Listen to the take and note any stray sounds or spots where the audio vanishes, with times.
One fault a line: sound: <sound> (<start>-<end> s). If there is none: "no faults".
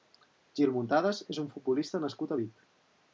no faults